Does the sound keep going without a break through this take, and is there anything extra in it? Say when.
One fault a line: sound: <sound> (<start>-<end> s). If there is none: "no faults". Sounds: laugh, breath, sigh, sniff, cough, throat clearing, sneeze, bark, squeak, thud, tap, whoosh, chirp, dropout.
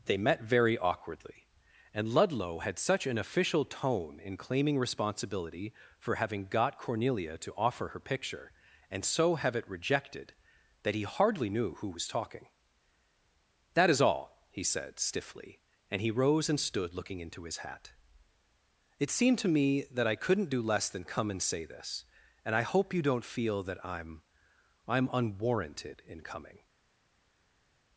no faults